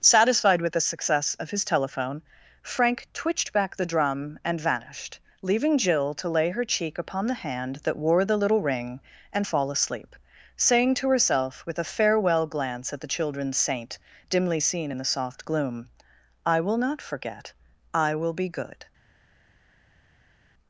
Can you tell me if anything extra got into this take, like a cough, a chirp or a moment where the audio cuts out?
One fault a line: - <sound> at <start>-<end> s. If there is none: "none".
none